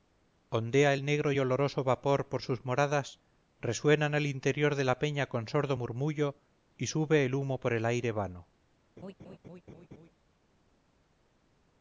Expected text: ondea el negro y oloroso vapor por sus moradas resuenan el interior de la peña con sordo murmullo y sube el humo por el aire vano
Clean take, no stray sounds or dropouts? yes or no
no